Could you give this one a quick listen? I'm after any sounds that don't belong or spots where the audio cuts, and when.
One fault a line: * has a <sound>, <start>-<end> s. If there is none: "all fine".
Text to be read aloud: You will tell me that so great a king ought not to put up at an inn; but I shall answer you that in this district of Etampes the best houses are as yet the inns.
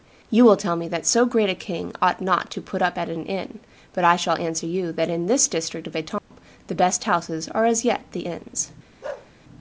* has a dropout, 6.2-6.3 s
* has a bark, 9.0-9.3 s